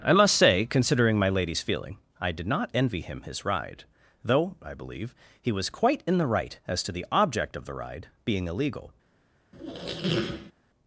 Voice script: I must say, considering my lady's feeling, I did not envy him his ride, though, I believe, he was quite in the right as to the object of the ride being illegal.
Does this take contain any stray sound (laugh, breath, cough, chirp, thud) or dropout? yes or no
yes